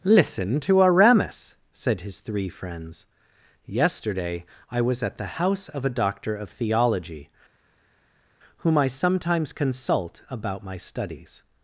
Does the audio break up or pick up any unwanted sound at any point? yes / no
no